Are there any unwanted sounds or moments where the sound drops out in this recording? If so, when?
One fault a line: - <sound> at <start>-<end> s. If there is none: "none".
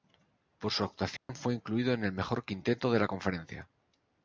- dropout at 1.2-1.3 s